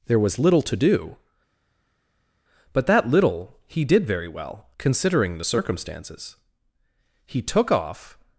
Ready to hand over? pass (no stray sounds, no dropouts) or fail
pass